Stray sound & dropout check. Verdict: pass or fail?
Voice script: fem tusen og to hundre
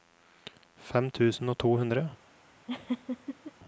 fail